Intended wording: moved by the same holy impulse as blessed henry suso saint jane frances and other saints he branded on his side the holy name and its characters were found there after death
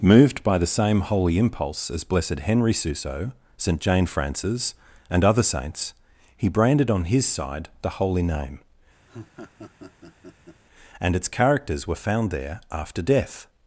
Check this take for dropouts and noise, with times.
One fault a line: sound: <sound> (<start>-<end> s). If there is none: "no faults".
sound: laugh (9.1-10.6 s)